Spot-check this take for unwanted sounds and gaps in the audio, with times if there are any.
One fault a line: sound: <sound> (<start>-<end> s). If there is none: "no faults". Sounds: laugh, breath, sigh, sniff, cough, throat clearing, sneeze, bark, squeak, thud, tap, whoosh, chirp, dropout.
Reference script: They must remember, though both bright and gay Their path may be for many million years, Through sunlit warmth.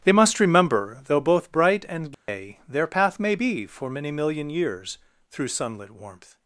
sound: dropout (2.1-2.3 s)